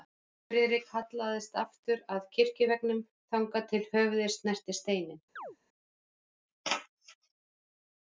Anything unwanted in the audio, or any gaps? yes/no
yes